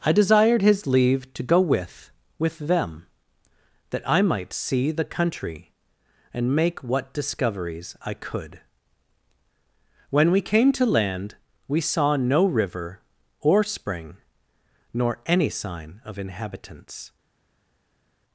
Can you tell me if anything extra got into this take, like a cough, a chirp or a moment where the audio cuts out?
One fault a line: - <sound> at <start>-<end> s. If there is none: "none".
none